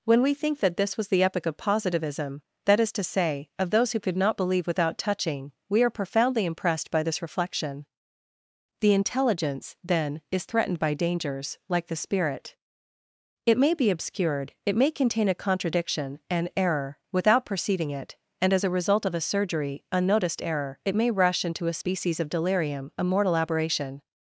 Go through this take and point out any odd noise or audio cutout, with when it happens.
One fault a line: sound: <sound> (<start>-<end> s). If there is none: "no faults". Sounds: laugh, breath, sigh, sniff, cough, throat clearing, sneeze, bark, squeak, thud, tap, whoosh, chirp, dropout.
no faults